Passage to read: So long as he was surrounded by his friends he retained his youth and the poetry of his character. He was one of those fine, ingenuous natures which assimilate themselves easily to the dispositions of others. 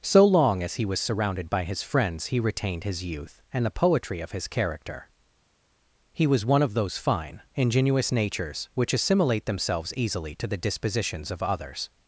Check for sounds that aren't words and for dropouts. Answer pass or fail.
pass